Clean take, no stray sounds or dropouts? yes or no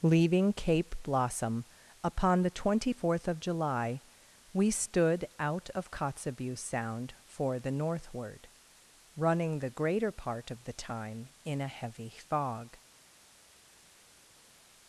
yes